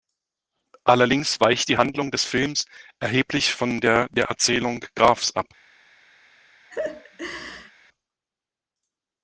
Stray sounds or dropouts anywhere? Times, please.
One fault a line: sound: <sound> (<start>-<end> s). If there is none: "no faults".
sound: laugh (6.7-7.7 s)